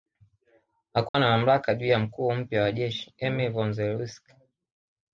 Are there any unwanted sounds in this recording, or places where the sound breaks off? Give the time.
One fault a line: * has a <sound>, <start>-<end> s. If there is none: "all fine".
* has a dropout, 1.1-1.1 s